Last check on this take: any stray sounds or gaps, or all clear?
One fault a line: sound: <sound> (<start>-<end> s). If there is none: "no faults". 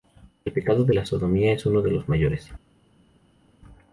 no faults